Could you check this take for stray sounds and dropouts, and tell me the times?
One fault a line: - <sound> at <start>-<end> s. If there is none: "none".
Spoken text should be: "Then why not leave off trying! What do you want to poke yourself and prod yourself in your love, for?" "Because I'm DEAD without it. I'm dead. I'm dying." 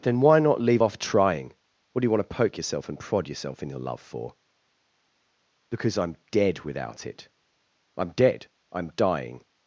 none